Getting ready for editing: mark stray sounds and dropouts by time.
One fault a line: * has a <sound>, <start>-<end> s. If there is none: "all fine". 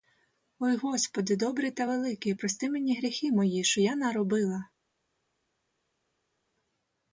all fine